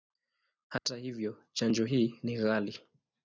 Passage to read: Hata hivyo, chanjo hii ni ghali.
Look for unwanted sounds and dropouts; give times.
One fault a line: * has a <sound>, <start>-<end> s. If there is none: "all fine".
* has a dropout, 0.8-0.9 s